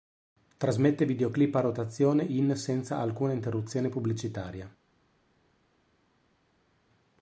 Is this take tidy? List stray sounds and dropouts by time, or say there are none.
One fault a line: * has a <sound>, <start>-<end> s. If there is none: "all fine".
all fine